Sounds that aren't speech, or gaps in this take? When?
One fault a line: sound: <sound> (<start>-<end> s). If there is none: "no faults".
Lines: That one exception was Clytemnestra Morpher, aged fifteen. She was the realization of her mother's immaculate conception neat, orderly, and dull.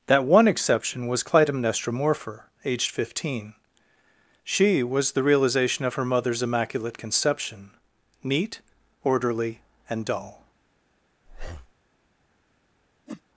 sound: breath (11.3-11.7 s)
sound: whoosh (13.1-13.2 s)